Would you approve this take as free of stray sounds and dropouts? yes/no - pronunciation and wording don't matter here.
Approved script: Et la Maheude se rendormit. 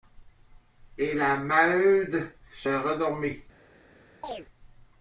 no